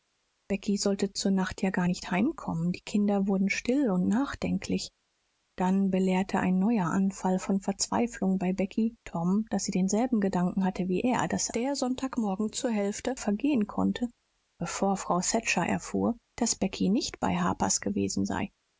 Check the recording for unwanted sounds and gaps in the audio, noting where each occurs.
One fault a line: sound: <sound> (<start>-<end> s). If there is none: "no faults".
no faults